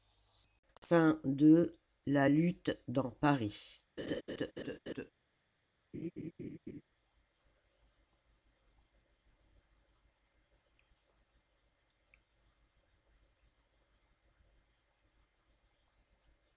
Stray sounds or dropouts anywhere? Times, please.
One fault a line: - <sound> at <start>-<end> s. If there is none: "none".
- laugh at 4.0-5.1 s
- laugh at 5.9-6.8 s